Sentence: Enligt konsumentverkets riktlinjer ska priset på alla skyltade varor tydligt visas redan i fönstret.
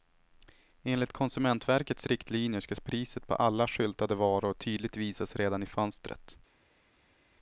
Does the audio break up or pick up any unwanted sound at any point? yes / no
no